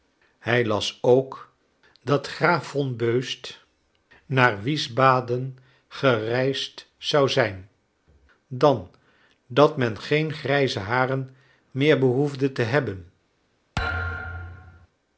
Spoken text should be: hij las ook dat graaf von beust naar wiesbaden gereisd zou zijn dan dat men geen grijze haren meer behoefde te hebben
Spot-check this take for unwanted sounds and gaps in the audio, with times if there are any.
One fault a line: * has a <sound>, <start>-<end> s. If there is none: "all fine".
* has a thud, 13.8-14.9 s